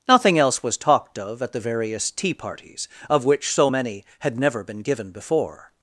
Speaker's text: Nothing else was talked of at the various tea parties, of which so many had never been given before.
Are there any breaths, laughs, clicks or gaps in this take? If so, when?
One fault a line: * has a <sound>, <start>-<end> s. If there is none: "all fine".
all fine